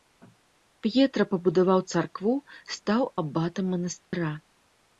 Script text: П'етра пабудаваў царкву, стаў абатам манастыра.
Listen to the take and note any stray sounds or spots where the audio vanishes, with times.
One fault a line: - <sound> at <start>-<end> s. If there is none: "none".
- dropout at 4.0-4.1 s